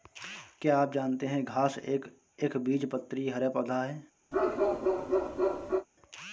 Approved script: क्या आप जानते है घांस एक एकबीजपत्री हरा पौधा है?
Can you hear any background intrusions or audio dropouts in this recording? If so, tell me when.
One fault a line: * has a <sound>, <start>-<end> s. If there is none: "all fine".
* has a bark, 4.3-5.9 s